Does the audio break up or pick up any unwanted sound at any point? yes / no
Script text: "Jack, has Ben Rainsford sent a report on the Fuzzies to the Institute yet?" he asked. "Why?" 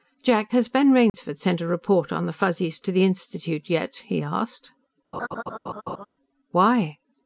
yes